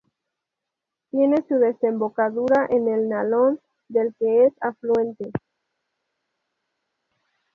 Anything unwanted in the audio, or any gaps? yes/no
no